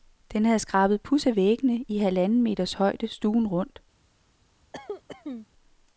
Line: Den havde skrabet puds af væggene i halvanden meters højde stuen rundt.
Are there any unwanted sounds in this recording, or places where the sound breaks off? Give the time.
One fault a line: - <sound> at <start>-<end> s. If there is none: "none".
- cough at 4.7-5.5 s